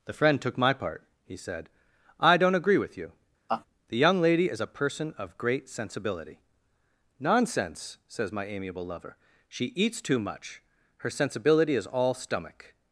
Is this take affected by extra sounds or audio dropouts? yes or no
yes